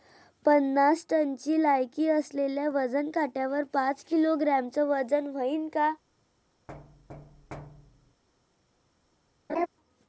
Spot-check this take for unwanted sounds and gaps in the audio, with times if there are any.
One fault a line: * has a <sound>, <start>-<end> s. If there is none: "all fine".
* has a thud, 6.7-8.2 s
* has a laugh, 9.5-9.7 s